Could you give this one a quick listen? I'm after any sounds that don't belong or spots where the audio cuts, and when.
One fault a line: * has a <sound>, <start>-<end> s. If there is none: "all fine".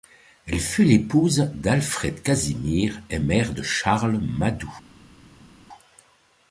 all fine